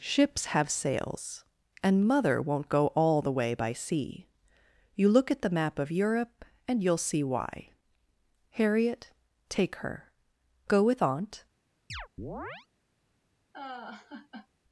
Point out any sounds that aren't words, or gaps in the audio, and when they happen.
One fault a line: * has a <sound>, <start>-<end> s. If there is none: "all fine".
* has a chirp, 11.9-12.7 s
* has a laugh, 13.5-14.5 s